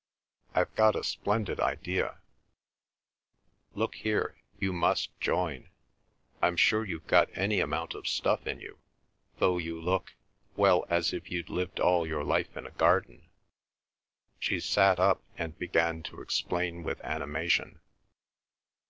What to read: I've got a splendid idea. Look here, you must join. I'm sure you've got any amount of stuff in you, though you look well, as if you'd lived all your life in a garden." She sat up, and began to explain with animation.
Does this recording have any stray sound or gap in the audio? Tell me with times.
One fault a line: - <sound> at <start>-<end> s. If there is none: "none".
none